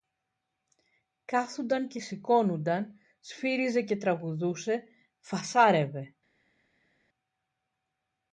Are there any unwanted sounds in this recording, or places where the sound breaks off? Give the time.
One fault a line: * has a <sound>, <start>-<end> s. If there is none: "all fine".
all fine